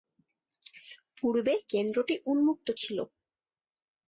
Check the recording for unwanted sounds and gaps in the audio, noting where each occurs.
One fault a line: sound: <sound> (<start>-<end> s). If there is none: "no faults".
no faults